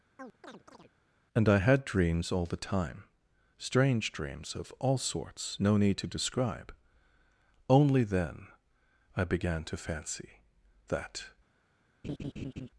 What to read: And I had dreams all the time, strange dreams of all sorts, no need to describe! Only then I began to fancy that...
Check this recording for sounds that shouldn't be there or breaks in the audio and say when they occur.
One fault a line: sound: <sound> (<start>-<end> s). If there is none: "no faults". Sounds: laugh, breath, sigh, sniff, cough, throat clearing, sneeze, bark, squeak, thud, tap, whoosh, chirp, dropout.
sound: chirp (0.2-0.9 s)
sound: laugh (12.0-12.7 s)